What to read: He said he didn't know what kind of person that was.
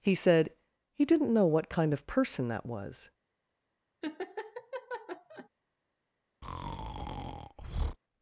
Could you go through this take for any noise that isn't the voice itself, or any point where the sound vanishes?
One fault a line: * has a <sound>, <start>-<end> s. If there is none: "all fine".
* has a laugh, 4.0-5.5 s
* has a breath, 6.4-8.0 s